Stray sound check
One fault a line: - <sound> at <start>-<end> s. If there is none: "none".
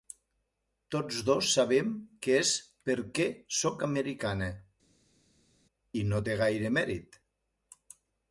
none